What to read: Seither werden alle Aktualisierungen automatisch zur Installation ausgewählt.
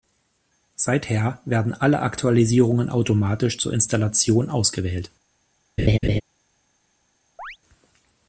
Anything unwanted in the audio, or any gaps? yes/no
yes